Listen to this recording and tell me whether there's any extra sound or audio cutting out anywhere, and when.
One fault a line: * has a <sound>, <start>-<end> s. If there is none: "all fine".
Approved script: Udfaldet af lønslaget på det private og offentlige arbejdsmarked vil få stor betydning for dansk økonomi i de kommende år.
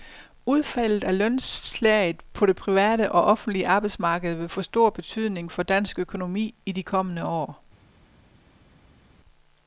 all fine